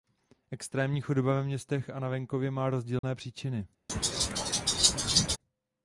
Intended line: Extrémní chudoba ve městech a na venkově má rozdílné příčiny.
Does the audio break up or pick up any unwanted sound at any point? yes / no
yes